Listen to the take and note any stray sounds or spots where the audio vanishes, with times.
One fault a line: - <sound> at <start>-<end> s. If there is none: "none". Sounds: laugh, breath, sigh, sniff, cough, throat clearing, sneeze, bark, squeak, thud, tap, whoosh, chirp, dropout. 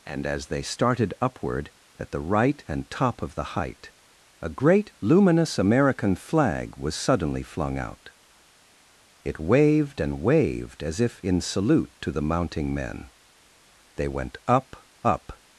none